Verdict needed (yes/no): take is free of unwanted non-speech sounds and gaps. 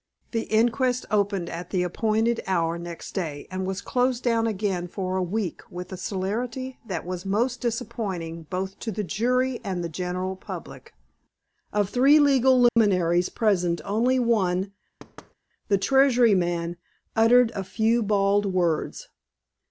no